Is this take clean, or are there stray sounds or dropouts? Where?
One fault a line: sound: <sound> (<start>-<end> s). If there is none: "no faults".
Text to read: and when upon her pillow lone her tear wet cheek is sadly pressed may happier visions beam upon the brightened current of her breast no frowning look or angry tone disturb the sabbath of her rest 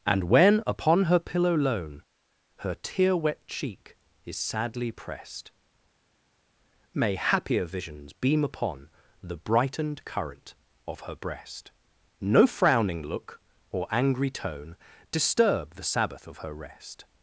no faults